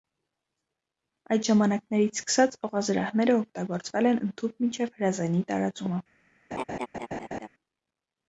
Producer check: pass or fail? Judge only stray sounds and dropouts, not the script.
fail